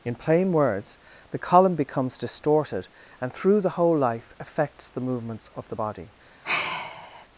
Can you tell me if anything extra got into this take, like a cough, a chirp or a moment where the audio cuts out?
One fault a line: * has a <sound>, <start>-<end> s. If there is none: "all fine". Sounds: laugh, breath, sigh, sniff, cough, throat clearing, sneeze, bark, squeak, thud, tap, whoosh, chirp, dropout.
* has a sigh, 6.4-7.3 s